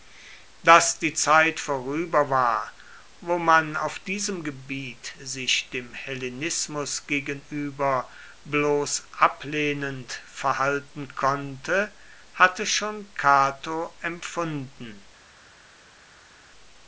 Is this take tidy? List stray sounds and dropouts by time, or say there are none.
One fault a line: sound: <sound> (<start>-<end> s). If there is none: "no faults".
no faults